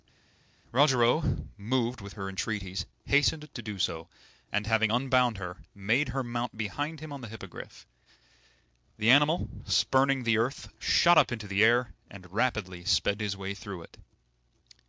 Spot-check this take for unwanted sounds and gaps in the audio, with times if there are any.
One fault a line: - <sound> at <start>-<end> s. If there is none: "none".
none